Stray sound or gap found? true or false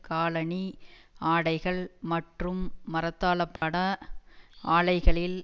true